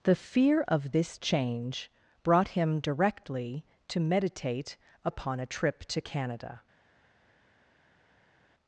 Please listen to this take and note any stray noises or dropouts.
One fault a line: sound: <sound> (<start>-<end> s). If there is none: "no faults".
no faults